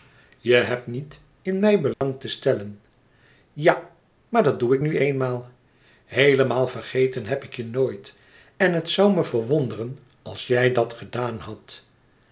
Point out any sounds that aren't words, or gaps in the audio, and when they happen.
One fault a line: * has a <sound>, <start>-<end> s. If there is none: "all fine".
* has a dropout, 1.9-2.0 s